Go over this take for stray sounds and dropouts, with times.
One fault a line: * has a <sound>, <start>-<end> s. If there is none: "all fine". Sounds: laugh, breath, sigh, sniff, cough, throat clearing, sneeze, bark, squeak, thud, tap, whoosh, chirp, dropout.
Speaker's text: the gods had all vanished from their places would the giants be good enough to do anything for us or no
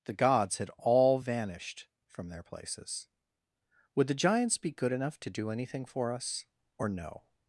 all fine